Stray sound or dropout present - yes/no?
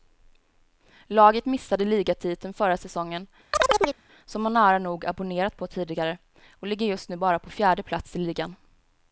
yes